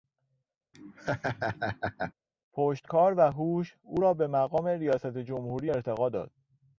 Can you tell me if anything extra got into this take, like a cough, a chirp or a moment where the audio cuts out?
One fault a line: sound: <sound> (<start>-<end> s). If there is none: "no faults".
sound: laugh (0.7-2.1 s)